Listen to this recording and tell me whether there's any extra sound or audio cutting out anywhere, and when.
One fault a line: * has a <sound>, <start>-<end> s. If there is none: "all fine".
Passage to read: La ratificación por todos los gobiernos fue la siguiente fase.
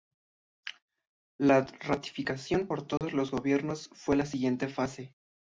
* has a dropout, 3.0-3.0 s